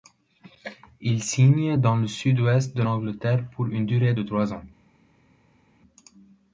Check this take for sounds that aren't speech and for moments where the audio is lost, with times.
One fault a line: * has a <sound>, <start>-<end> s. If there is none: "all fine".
all fine